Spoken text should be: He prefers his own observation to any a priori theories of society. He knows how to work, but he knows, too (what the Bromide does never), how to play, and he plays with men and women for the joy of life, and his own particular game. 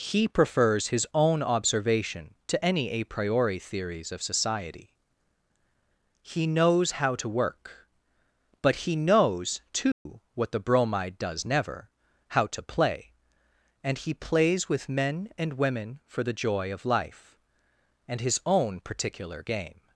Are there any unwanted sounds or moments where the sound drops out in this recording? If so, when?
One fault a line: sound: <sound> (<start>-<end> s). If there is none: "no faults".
sound: dropout (9.9-10.1 s)